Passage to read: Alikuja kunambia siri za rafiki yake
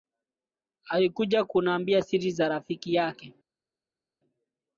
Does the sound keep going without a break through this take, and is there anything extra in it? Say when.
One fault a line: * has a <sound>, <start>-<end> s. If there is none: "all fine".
all fine